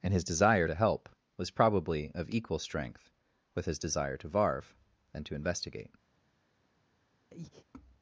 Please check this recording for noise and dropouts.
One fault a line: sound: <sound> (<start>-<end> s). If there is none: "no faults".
sound: breath (7.3-7.7 s)